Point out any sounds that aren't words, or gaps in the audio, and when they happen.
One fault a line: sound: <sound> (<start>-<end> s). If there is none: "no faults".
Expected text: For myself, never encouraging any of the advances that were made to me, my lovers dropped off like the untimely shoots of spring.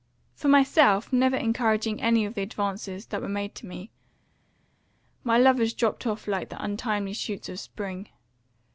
no faults